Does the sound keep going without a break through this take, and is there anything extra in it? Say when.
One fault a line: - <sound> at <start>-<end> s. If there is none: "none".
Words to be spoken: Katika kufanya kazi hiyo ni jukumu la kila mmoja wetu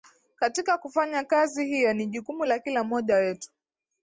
none